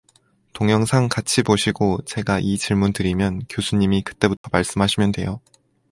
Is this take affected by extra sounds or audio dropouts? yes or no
yes